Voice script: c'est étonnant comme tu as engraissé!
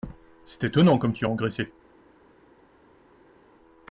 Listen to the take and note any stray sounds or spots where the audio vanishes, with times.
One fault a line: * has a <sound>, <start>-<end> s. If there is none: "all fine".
all fine